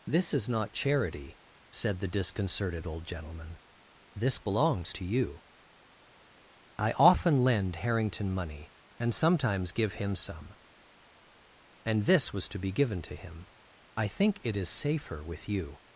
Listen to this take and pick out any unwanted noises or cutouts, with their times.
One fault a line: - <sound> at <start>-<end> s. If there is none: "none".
none